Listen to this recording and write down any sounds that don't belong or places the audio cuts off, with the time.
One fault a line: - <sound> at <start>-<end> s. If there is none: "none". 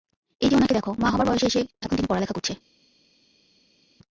none